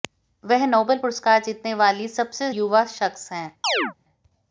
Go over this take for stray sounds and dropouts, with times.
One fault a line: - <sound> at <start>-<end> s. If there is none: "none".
- chirp at 3.6-3.9 s